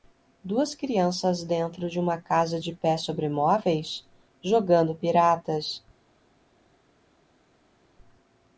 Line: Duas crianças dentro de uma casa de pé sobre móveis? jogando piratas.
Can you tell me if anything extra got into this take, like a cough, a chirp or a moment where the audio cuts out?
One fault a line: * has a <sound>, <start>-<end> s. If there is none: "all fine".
all fine